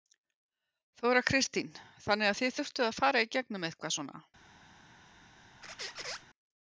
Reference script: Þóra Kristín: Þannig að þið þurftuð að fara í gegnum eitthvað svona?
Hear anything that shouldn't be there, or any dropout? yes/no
yes